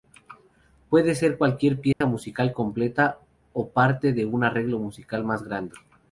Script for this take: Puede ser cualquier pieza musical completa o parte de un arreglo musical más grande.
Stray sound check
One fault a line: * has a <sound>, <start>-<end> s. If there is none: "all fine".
* has a dropout, 1.9-2.0 s